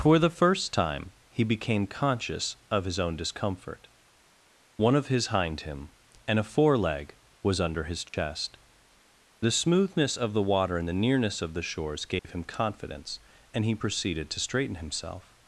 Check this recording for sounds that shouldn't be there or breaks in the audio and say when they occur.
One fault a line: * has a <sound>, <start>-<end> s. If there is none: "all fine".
* has a dropout, 8.1-8.1 s
* has a dropout, 12.2-12.2 s